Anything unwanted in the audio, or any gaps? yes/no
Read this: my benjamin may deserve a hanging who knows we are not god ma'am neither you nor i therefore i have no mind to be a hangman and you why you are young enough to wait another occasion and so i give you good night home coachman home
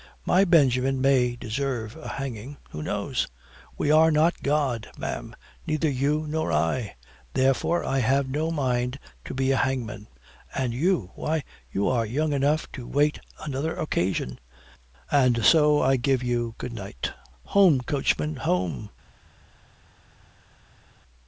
no